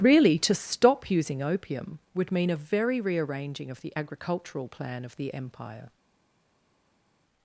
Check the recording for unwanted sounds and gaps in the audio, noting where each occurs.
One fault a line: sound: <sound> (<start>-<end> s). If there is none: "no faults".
no faults